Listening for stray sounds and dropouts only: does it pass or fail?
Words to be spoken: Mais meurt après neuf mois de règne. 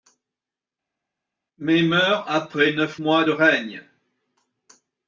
pass